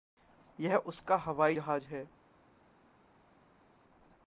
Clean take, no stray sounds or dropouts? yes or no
yes